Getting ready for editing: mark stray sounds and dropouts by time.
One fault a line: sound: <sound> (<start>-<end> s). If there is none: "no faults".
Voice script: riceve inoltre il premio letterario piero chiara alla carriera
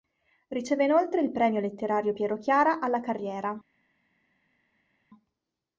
no faults